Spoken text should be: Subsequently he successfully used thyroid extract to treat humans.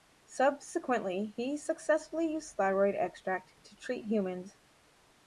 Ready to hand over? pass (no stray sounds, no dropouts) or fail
pass